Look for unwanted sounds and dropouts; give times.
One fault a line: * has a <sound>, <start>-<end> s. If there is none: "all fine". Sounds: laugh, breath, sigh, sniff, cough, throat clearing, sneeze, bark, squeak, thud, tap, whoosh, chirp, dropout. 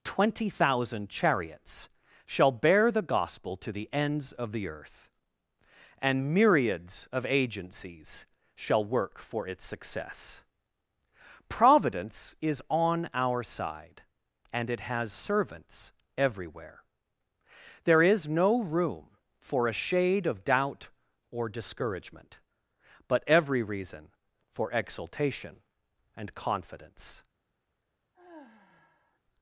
* has a sigh, 28.1-29.2 s